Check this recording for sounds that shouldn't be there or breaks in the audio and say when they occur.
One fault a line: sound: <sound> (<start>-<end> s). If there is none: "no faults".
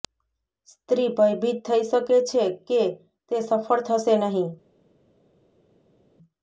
no faults